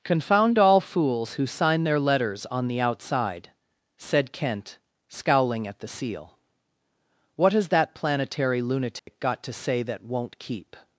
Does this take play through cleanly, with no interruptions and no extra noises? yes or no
no